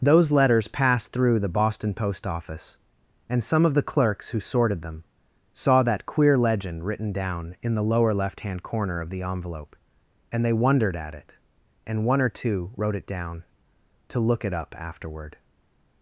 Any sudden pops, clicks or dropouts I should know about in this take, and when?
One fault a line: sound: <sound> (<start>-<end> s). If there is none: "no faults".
no faults